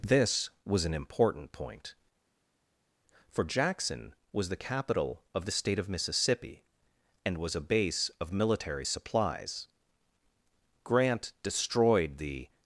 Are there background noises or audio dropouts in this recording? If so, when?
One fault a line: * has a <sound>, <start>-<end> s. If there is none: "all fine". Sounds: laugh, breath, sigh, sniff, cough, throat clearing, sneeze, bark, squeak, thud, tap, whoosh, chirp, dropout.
all fine